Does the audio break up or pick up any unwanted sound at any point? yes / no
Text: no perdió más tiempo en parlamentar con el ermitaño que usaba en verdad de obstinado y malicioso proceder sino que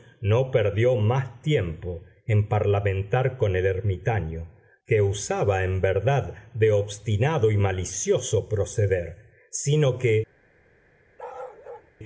yes